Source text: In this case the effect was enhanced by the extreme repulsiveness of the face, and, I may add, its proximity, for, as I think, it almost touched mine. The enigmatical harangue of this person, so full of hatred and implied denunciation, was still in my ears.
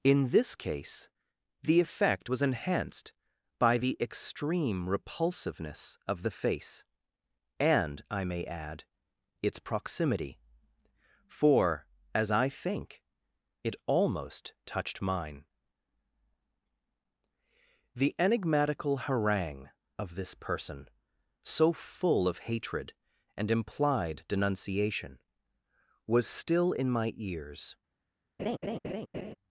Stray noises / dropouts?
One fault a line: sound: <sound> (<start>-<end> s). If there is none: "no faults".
sound: laugh (28.4-29.4 s)